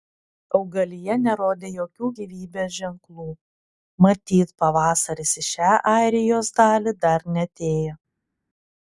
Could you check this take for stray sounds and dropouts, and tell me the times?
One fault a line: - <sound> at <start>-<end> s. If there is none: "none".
none